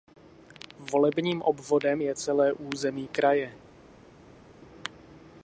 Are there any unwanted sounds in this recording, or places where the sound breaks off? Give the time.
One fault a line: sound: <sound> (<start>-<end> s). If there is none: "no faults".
no faults